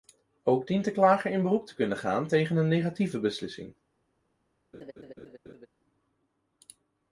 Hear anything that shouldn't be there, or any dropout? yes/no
yes